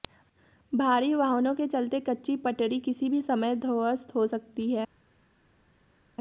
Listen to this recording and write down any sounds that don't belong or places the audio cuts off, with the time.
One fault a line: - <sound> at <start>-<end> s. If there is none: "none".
none